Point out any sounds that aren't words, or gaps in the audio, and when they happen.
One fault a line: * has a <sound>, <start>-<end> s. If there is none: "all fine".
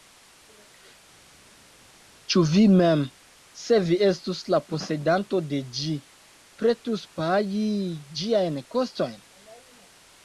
all fine